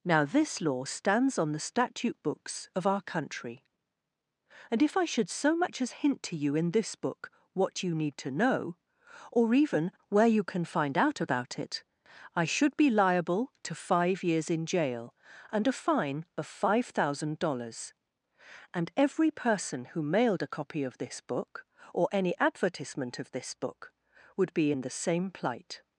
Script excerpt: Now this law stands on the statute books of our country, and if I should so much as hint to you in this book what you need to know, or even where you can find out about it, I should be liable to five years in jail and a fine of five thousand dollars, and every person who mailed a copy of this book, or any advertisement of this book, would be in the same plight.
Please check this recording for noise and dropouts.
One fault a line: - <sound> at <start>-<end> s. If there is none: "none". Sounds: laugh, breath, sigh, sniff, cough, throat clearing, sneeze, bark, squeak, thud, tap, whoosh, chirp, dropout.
none